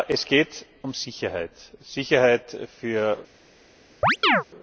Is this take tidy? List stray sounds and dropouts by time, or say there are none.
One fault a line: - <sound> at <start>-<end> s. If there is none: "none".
- chirp at 4.0-4.4 s